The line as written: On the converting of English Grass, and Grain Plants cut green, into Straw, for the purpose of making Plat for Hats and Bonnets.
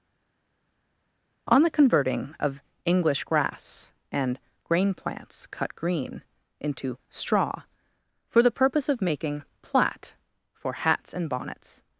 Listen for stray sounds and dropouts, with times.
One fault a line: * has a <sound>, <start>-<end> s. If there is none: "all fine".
all fine